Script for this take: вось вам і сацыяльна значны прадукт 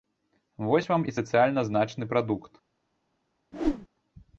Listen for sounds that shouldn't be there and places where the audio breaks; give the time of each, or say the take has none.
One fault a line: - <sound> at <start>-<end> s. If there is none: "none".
- whoosh at 3.5-3.9 s